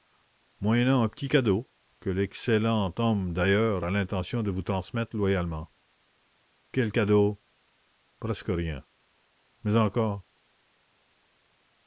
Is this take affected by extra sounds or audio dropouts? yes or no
no